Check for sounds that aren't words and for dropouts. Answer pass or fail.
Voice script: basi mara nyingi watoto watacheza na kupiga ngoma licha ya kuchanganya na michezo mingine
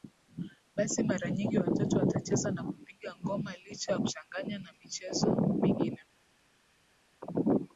pass